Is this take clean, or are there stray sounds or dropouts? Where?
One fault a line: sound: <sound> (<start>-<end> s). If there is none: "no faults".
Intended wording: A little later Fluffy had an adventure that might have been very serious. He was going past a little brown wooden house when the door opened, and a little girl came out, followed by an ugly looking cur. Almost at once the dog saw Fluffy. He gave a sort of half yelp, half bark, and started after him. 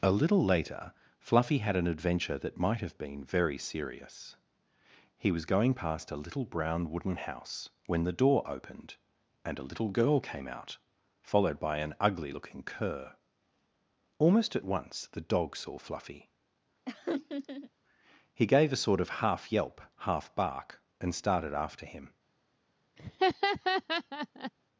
sound: laugh (16.9-17.7 s)
sound: laugh (23.0-24.5 s)